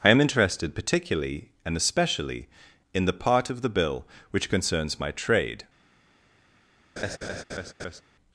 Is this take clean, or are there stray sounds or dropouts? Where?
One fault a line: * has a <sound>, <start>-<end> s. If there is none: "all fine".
* has a laugh, 7.0-8.0 s